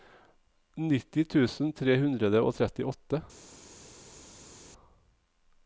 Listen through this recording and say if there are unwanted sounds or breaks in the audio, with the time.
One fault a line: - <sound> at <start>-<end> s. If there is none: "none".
none